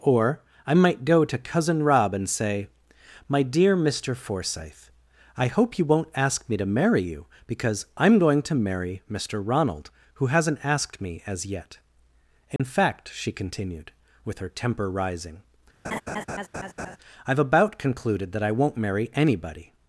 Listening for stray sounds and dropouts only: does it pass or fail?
fail